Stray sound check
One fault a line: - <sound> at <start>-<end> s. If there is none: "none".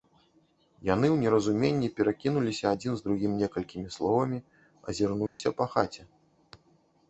- dropout at 5.3-5.4 s